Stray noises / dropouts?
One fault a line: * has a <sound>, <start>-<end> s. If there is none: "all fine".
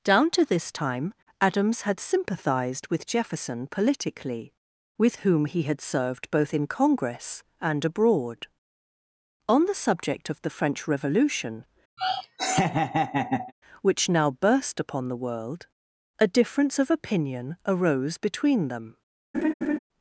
* has a laugh, 12.0-13.5 s
* has a laugh, 19.3-19.8 s